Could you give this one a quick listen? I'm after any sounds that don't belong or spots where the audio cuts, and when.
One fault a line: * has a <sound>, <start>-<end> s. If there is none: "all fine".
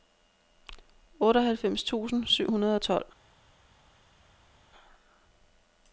all fine